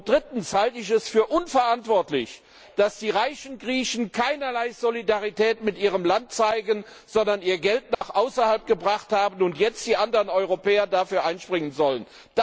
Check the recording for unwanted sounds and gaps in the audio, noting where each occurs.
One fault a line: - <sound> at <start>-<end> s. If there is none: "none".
- dropout at 7.9-8.0 s